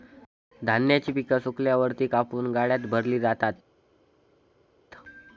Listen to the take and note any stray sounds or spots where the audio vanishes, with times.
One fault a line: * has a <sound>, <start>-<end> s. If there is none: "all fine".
all fine